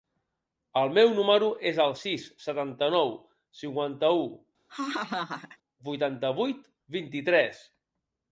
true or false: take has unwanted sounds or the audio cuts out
true